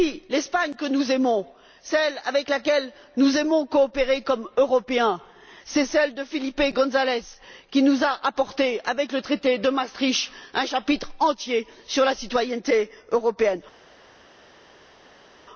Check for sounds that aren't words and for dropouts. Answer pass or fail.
pass